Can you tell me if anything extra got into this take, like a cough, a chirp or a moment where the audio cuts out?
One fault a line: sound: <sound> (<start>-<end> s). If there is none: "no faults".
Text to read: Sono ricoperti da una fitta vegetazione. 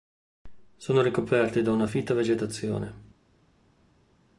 no faults